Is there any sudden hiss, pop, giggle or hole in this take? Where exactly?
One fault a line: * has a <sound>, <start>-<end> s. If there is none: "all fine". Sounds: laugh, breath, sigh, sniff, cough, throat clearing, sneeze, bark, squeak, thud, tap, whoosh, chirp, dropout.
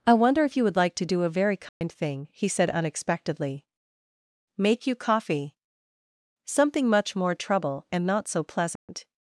* has a dropout, 1.7-1.8 s
* has a dropout, 8.8-8.9 s